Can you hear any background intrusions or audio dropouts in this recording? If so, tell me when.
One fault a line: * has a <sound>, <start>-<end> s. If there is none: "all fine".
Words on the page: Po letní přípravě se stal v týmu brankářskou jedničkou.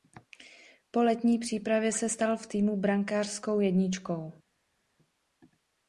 all fine